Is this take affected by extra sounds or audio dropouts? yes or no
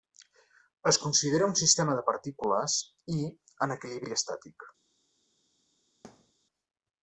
yes